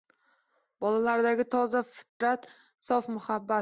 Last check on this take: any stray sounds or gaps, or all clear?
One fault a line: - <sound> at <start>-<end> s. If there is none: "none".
- dropout at 2.1-2.2 s